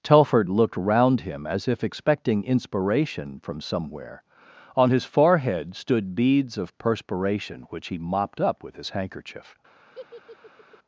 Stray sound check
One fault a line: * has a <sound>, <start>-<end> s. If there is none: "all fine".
* has a laugh, 9.9-10.8 s